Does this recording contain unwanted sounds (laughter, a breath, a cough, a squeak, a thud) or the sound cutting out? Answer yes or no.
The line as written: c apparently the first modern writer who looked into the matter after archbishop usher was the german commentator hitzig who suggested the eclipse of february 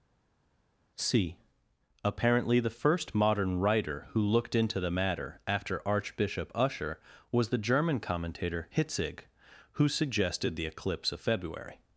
no